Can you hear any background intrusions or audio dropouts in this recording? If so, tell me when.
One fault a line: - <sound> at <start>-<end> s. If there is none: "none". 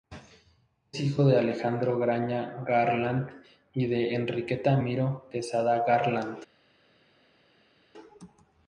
none